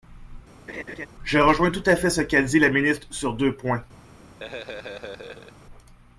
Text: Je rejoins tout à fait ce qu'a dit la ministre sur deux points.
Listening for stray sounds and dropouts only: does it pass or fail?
fail